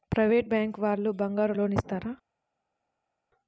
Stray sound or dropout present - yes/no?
no